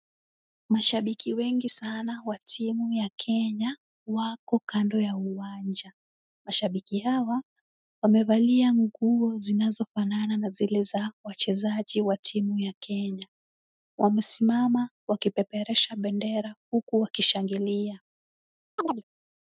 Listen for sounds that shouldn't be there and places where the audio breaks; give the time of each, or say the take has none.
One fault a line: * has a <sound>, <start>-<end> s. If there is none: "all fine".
* has a chirp, 18.8-19.0 s